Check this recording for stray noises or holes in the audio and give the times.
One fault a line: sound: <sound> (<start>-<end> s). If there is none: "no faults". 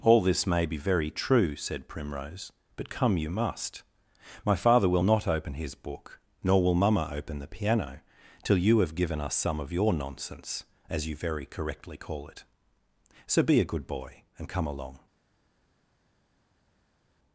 no faults